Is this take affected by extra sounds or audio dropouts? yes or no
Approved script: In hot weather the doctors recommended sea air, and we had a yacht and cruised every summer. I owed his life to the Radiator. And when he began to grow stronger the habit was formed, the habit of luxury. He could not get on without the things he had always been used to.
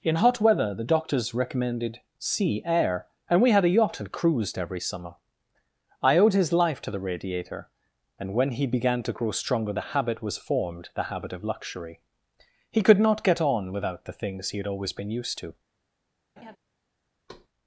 yes